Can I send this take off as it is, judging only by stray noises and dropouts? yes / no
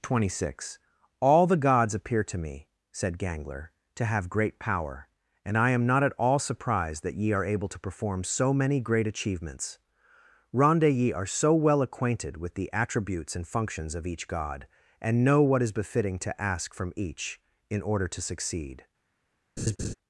no